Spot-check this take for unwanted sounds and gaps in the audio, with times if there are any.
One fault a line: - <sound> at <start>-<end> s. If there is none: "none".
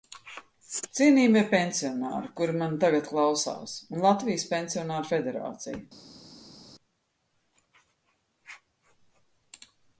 none